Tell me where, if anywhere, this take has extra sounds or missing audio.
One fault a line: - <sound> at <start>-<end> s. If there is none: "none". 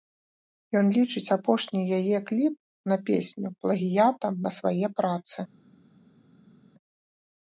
none